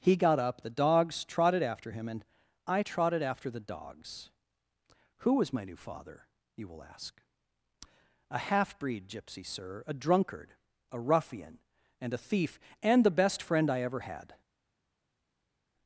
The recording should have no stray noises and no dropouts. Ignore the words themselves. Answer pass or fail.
pass